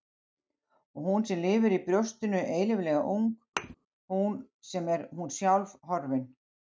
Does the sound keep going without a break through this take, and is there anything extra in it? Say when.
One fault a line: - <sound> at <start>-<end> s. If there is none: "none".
- thud at 3.6-3.8 s